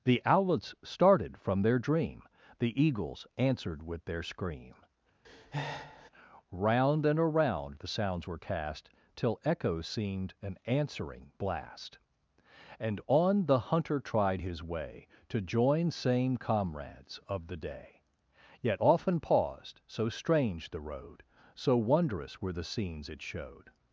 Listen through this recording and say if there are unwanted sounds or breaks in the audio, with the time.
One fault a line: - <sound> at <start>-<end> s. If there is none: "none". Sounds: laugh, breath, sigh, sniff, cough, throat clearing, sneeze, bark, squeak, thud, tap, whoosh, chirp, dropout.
- breath at 5.2-6.1 s